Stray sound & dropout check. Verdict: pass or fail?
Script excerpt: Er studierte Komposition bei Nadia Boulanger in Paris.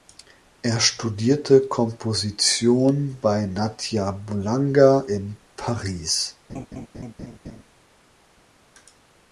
fail